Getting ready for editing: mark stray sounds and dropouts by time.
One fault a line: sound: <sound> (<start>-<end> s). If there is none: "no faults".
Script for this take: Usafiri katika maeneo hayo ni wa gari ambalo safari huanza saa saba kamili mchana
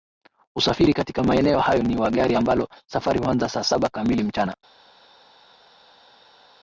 no faults